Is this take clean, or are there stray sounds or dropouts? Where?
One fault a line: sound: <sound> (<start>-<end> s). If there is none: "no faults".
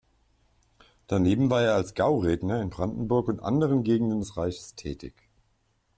no faults